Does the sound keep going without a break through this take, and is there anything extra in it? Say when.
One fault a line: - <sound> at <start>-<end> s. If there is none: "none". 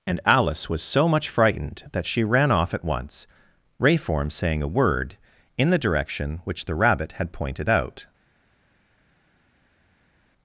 none